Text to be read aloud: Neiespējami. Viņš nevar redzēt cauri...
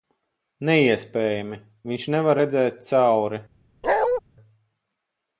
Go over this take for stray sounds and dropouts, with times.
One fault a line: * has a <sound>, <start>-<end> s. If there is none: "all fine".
* has a bark, 3.8-4.2 s